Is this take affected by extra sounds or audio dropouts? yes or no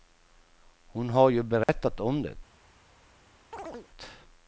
yes